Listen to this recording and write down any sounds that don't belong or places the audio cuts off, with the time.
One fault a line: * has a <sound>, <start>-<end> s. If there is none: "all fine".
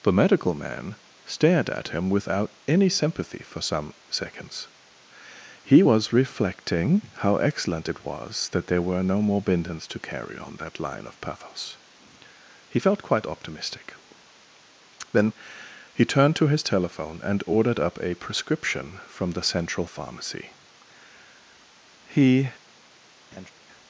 * has a laugh, 23.3-23.5 s